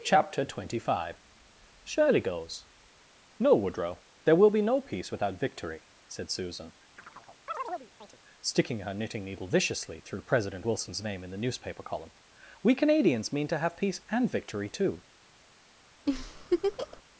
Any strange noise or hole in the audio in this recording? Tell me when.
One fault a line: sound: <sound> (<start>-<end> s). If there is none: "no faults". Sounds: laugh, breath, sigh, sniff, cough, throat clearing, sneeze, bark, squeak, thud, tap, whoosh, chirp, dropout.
sound: chirp (7.0-8.2 s)
sound: laugh (16.1-17.0 s)